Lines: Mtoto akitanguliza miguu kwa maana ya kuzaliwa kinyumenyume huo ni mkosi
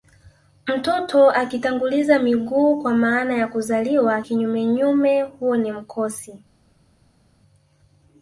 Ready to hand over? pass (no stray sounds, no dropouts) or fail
pass